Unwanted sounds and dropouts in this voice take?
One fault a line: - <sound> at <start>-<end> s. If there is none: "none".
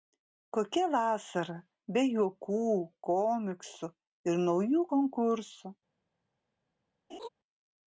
- laugh at 7.1-7.3 s